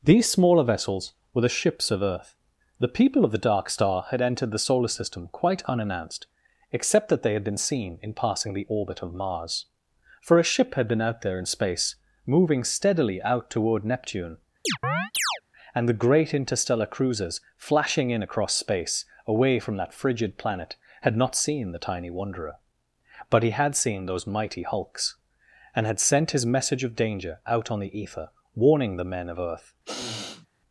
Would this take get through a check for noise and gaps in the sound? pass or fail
fail